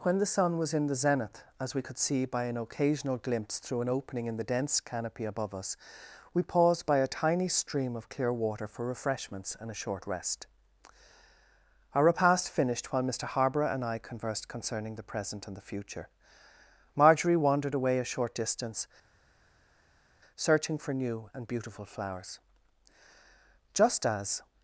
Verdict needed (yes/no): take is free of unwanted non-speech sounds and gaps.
yes